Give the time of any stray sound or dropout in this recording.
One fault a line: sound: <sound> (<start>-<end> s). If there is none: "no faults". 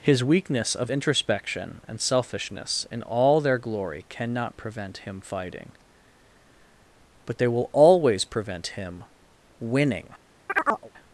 sound: chirp (10.5-10.9 s)